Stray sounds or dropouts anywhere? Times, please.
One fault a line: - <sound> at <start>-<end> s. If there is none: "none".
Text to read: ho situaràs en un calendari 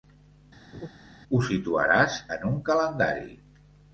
- laugh at 0.7-0.9 s